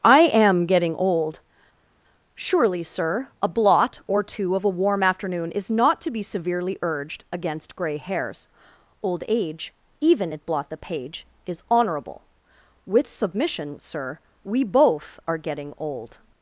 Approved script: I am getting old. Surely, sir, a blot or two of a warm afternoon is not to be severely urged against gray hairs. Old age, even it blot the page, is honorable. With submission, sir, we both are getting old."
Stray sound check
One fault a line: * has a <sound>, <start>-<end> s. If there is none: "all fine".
all fine